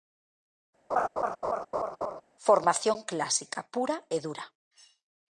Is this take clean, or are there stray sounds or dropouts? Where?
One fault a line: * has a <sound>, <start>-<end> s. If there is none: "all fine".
* has a laugh, 0.9-2.2 s